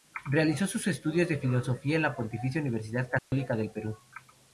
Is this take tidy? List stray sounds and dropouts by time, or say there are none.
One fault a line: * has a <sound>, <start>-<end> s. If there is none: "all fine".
* has a dropout, 3.2-3.3 s